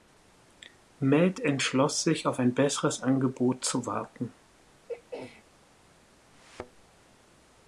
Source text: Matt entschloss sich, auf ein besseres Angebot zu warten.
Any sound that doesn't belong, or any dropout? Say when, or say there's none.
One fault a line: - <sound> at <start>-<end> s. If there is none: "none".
- throat clearing at 4.9-5.4 s
- thud at 6.3-6.8 s